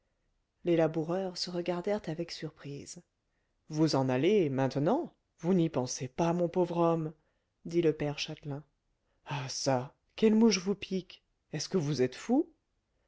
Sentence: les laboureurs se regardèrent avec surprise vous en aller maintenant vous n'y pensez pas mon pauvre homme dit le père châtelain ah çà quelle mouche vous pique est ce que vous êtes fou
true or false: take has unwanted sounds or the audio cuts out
false